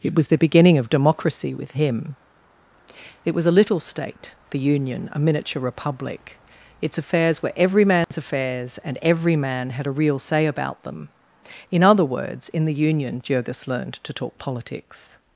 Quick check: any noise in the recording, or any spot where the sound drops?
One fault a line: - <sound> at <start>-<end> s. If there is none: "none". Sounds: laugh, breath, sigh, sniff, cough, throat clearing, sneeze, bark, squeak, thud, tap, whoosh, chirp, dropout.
- dropout at 8.0-8.1 s